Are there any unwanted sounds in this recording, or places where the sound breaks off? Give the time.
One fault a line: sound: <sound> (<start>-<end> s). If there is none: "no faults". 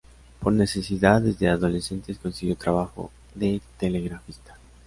no faults